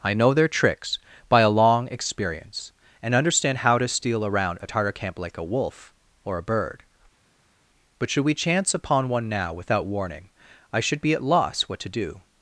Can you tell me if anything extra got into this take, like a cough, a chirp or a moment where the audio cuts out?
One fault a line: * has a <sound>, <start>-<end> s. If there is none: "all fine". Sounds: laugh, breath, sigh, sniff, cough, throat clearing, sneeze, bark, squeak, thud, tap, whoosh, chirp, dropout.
all fine